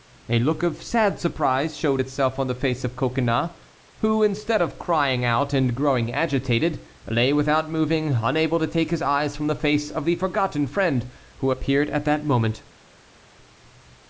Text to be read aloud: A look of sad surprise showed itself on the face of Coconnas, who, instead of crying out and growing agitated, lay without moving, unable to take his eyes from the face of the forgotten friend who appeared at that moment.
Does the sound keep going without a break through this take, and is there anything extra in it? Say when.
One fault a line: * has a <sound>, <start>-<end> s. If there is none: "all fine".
all fine